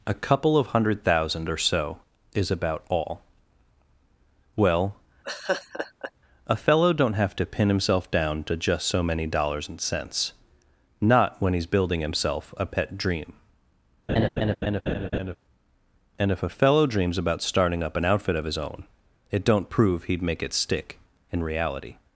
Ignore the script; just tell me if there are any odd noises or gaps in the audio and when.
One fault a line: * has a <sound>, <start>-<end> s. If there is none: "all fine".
* has a laugh, 5.2-6.1 s
* has a laugh, 14.1-15.4 s